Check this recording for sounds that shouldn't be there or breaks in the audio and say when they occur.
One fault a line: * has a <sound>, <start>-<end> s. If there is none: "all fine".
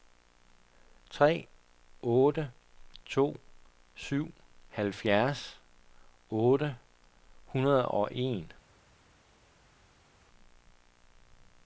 all fine